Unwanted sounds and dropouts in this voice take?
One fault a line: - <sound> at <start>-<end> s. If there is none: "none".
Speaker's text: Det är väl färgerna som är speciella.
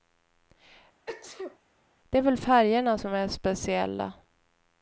- sneeze at 1.1-1.6 s